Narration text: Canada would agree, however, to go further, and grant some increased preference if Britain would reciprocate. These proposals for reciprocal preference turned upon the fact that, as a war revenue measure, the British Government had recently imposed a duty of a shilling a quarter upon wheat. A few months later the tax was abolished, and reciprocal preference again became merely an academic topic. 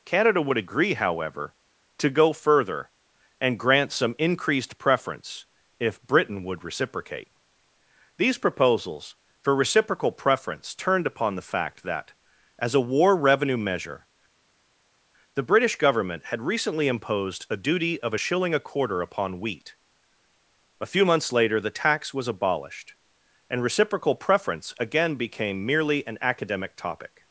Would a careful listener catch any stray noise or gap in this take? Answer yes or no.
no